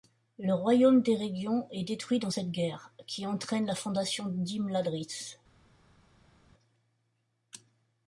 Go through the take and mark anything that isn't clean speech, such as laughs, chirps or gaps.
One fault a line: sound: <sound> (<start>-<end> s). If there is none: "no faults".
no faults